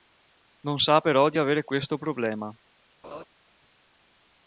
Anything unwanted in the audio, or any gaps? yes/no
yes